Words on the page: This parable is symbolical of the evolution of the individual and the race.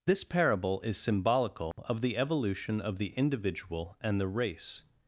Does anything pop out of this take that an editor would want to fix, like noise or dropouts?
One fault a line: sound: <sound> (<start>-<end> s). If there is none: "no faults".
sound: dropout (1.7-1.8 s)